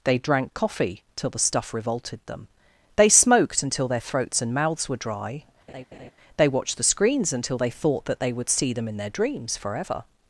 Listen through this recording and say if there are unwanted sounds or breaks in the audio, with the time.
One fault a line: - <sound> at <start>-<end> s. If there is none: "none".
- laugh at 5.7-6.1 s